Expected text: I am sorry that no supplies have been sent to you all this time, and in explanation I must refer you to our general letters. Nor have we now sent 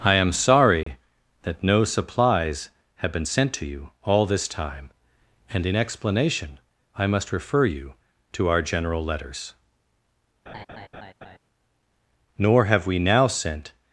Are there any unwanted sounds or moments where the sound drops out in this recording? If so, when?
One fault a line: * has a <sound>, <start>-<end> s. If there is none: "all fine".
* has a dropout, 0.8-0.9 s
* has a laugh, 10.5-11.4 s